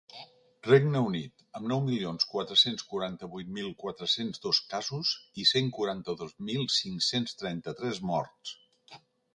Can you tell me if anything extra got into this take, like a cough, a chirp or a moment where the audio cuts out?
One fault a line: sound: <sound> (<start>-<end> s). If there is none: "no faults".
no faults